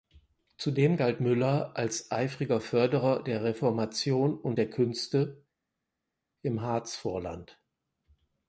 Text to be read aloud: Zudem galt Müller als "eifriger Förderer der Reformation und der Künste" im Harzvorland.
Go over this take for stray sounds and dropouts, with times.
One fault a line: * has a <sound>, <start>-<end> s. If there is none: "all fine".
all fine